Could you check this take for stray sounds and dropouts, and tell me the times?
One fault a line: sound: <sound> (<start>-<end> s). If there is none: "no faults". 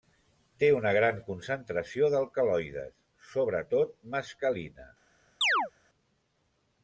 sound: chirp (5.4-5.7 s)